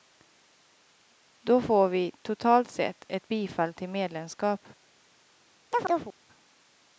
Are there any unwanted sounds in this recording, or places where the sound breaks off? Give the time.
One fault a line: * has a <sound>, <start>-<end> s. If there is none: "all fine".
* has a chirp, 5.7-6.2 s